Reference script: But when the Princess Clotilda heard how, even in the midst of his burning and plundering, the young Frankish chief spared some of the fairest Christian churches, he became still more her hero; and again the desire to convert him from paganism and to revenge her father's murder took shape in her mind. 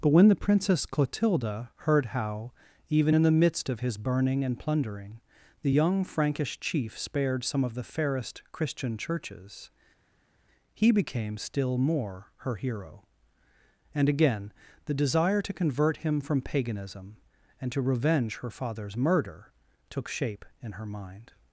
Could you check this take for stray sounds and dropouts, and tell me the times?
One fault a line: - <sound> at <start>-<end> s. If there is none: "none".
none